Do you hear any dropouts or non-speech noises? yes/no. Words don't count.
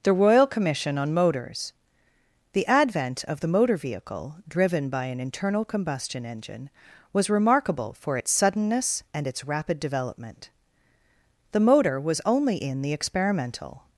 no